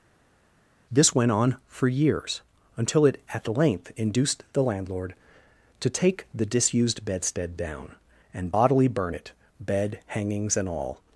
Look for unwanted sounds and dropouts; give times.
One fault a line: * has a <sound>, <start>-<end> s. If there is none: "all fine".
all fine